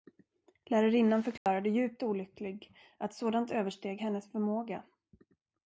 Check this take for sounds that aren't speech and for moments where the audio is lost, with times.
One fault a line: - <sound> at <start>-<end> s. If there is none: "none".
- dropout at 1.4-1.5 s